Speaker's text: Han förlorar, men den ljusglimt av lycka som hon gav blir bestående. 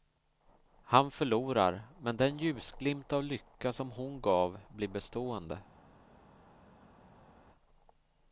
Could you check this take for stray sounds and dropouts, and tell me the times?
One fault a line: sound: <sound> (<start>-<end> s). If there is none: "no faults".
no faults